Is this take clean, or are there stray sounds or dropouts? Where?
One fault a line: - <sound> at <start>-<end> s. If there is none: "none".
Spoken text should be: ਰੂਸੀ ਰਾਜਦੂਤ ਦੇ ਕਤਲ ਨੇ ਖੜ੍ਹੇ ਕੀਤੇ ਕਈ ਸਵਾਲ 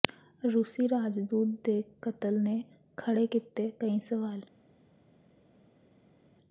none